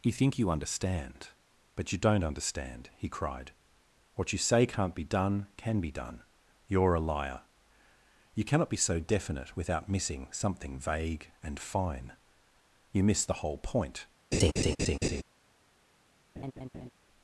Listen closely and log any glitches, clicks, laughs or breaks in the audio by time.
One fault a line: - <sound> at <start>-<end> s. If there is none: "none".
- laugh at 14.3-15.2 s
- laugh at 16.4-16.9 s